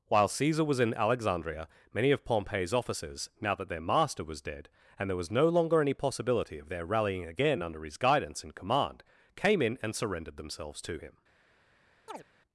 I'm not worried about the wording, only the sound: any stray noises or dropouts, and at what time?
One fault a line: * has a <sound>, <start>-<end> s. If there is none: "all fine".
* has a chirp, 12.1-12.2 s